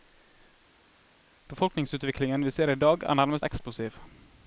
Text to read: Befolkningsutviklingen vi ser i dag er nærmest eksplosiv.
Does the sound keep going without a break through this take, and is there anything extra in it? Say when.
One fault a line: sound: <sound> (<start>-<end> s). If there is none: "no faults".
no faults